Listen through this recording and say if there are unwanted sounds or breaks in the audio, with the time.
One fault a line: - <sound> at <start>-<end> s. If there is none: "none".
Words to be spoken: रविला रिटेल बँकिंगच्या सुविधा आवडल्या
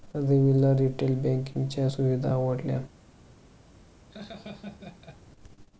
- laugh at 4.1-5.2 s